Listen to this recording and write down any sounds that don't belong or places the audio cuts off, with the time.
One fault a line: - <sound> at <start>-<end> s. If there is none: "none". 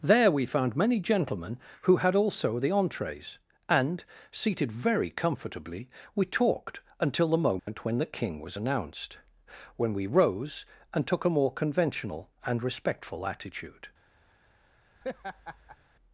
- dropout at 7.6-7.7 s
- laugh at 15.0-15.8 s